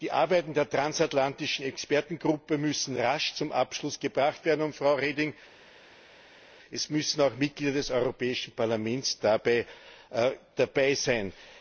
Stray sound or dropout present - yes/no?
no